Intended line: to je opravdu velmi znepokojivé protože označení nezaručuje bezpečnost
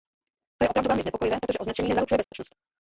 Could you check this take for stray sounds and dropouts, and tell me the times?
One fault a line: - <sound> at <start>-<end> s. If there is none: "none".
- dropout at 2.2-2.3 s